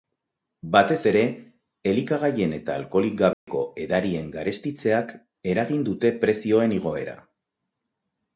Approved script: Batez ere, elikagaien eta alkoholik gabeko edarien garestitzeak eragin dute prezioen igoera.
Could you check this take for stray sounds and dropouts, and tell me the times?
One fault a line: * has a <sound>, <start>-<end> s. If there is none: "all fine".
* has a dropout, 3.3-3.5 s